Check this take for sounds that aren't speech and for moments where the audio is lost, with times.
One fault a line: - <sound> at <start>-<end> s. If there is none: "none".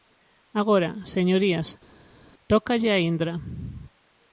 none